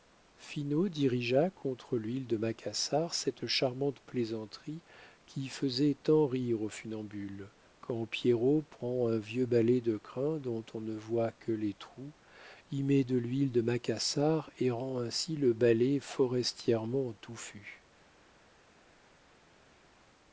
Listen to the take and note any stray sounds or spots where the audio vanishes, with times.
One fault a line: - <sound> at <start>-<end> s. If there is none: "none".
none